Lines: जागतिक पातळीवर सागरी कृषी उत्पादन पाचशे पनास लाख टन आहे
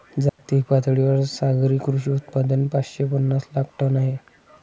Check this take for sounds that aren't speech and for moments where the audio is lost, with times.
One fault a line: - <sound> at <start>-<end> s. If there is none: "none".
- dropout at 0.3-0.4 s